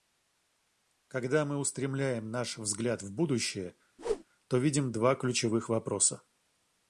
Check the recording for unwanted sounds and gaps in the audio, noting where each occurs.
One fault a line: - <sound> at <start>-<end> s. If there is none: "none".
- whoosh at 4.0-4.2 s